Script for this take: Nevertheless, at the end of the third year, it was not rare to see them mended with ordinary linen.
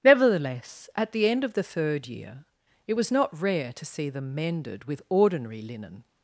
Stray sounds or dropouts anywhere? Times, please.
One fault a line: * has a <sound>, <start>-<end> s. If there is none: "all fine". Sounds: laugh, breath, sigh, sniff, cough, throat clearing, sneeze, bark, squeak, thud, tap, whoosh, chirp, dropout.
all fine